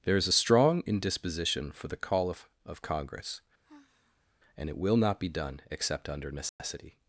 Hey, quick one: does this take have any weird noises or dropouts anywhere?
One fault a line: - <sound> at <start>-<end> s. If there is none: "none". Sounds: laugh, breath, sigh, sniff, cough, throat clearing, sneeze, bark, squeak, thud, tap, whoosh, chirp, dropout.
- sigh at 3.6-4.3 s
- dropout at 6.5-6.6 s